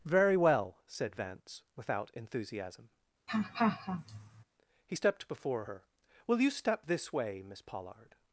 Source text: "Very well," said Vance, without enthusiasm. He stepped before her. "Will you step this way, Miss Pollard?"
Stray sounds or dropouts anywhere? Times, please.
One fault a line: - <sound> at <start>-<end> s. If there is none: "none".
- laugh at 3.3-4.4 s